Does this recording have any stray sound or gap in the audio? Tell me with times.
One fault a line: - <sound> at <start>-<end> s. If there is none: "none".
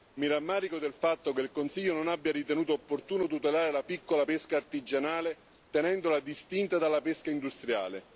none